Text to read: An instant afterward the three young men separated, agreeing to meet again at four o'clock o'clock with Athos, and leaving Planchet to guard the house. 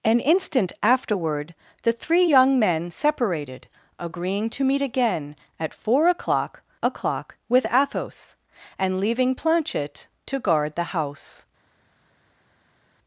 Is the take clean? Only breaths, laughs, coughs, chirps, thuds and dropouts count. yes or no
yes